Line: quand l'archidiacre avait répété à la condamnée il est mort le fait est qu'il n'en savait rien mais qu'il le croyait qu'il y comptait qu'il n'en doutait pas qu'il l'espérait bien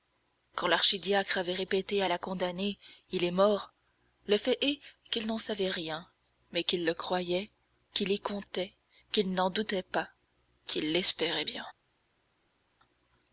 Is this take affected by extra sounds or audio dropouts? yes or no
no